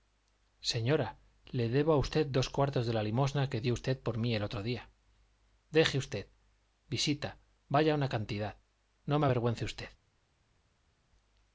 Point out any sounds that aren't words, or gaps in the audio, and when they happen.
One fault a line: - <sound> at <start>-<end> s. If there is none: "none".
none